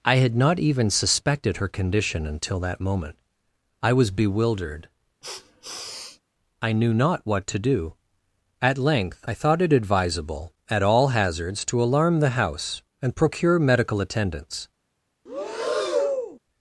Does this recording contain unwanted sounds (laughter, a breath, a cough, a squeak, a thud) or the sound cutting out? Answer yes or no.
yes